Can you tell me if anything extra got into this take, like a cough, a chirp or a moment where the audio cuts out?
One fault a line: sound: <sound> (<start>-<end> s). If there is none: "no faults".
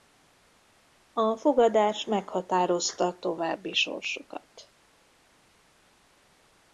no faults